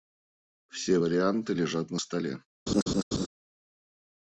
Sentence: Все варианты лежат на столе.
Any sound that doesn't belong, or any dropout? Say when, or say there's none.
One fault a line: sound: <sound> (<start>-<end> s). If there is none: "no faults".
sound: laugh (2.7-3.3 s)